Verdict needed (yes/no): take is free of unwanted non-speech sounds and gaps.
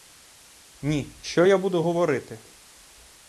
yes